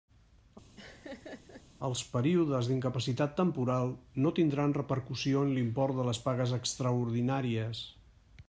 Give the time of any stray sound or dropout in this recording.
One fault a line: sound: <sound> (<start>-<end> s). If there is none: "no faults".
sound: laugh (0.8-1.6 s)